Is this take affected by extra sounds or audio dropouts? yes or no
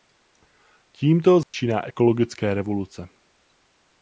yes